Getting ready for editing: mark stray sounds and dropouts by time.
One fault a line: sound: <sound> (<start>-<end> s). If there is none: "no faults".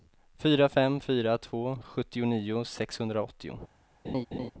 sound: laugh (4.0-4.5 s)